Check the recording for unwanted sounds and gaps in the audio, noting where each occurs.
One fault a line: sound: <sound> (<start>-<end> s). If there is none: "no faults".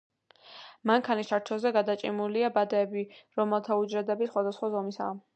no faults